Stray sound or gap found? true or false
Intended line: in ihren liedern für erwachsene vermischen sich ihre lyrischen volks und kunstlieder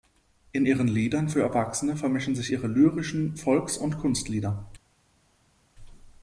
false